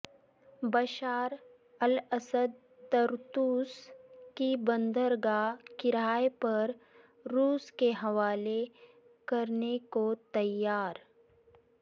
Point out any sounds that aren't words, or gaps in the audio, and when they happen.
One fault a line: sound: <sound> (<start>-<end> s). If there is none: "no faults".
no faults